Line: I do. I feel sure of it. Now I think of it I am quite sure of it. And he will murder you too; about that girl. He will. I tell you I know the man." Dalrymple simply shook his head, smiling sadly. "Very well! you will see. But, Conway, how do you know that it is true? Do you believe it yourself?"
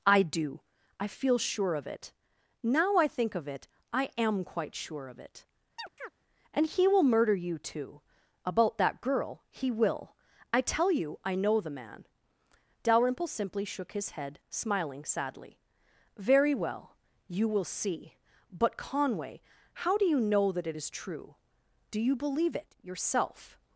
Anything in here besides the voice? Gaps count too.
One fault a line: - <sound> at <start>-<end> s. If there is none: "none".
- chirp at 5.8-6.1 s